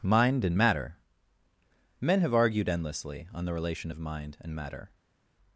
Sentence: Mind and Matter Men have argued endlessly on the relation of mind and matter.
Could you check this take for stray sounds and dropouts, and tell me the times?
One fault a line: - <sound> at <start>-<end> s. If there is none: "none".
none